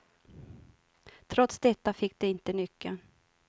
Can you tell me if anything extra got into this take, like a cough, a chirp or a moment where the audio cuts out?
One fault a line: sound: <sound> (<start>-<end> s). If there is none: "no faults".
no faults